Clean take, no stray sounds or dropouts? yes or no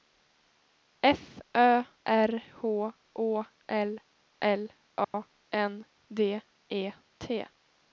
no